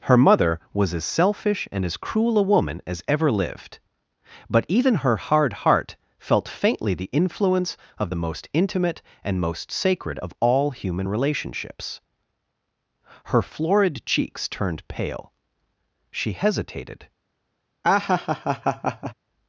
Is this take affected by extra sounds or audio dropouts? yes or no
yes